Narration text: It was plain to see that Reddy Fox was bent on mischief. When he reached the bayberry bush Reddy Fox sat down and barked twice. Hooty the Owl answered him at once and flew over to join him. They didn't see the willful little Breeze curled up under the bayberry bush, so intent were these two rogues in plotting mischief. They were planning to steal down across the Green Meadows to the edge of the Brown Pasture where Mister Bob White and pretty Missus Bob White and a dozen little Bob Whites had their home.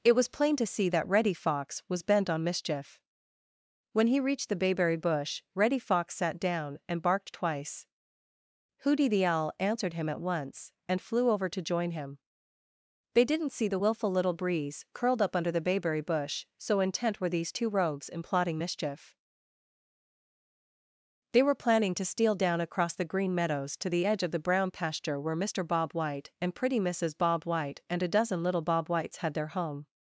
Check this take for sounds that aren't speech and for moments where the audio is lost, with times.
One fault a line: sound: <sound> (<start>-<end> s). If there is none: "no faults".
no faults